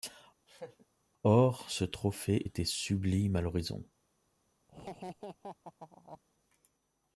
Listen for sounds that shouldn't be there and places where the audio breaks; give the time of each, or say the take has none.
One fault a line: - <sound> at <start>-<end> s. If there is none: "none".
- laugh at 0.5-0.9 s
- laugh at 4.7-6.2 s